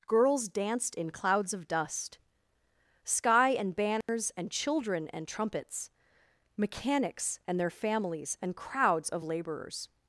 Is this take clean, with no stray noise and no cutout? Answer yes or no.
no